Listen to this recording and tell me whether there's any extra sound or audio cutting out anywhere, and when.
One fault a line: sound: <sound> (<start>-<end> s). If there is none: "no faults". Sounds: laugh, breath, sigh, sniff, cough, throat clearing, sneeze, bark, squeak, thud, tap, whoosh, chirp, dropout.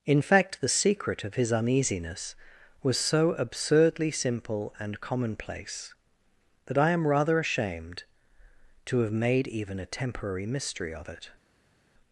no faults